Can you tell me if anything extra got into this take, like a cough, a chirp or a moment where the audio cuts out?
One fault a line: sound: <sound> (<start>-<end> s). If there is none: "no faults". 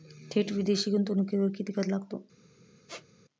sound: squeak (2.9-3.1 s)